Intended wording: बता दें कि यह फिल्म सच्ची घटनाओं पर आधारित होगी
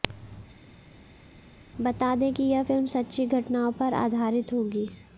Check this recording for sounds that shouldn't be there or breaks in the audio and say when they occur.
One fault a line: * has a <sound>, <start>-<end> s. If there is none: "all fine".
all fine